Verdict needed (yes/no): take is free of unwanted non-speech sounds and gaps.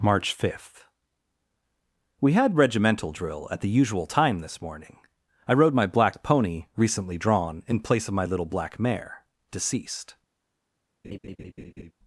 no